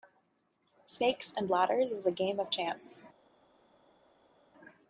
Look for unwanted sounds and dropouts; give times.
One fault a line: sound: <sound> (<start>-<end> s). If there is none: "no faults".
no faults